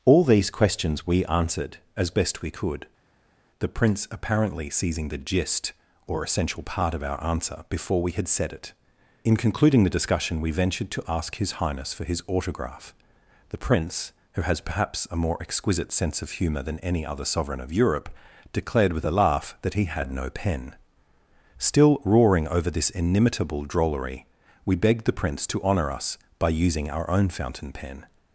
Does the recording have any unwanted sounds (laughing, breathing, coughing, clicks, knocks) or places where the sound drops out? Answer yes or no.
no